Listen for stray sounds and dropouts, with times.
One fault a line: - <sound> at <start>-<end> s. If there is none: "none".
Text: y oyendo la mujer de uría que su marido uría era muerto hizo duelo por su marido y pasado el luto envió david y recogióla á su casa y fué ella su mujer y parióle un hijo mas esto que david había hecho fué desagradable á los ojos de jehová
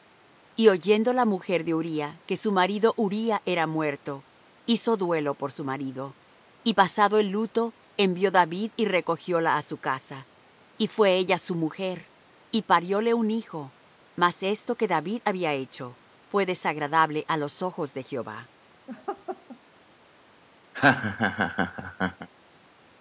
- laugh at 18.9-19.6 s
- laugh at 20.7-22.3 s